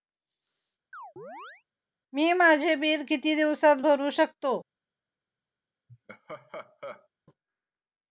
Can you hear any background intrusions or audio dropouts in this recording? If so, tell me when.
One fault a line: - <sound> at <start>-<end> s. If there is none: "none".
- chirp at 0.9-1.6 s
- laugh at 5.9-7.1 s